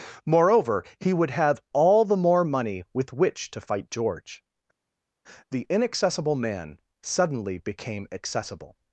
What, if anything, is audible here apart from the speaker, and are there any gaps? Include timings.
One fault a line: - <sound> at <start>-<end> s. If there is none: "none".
none